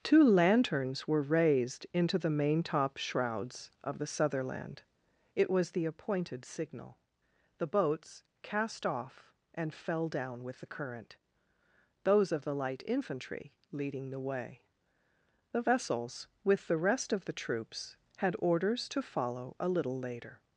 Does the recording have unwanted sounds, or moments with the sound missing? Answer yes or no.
no